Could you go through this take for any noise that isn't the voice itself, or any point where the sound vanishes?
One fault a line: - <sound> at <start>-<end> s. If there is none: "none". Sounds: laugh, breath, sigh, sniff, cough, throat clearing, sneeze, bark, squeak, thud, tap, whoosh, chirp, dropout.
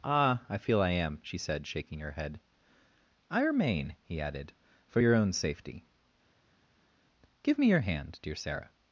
none